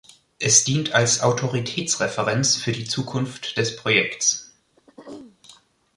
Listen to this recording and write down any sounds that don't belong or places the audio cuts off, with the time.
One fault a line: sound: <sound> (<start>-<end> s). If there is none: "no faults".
sound: throat clearing (4.8-5.4 s)